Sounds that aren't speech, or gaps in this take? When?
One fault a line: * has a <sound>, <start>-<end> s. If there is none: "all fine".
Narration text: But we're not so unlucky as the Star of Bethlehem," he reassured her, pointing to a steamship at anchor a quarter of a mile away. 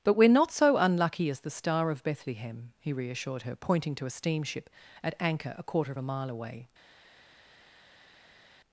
all fine